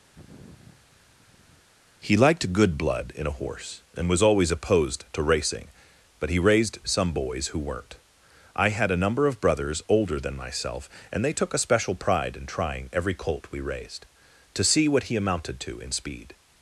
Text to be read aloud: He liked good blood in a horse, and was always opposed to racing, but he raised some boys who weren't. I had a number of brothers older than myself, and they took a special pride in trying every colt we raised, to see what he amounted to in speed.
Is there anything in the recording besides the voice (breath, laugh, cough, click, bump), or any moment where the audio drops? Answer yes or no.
yes